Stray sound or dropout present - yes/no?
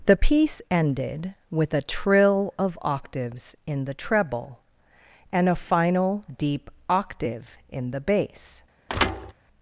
yes